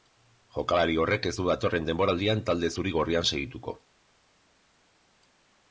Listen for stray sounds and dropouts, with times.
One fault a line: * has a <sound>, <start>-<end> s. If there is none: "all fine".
all fine